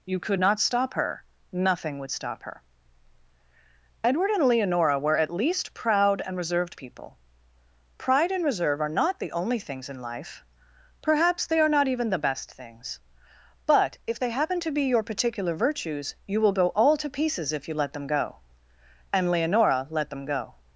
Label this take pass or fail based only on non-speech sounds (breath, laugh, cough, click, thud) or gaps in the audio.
pass